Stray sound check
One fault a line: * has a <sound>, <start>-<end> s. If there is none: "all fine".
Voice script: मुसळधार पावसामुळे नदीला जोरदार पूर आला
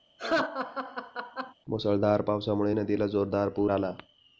* has a laugh, 0.2-1.5 s